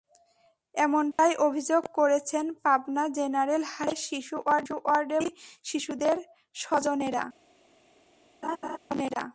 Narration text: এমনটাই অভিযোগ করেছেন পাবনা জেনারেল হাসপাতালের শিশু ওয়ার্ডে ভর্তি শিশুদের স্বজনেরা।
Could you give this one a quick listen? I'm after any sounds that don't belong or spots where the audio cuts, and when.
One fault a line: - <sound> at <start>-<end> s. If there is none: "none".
- dropout at 1.1-1.2 s
- laugh at 8.4-8.8 s